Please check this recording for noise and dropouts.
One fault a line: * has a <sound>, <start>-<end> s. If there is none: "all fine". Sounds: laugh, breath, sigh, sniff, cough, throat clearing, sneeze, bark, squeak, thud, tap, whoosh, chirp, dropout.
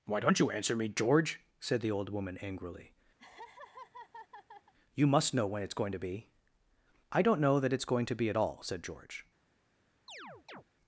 * has a laugh, 3.2-4.7 s
* has a chirp, 10.1-10.6 s